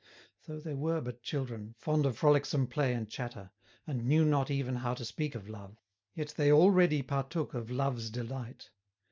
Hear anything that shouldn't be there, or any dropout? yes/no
no